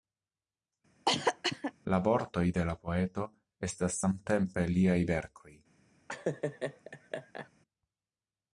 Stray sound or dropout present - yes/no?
yes